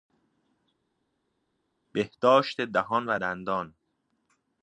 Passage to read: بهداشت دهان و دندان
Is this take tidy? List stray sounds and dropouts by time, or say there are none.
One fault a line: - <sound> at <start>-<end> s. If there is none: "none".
none